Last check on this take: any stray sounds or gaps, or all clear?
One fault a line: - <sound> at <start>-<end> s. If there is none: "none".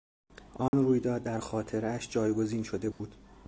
- dropout at 0.7-0.7 s
- dropout at 2.9-3.0 s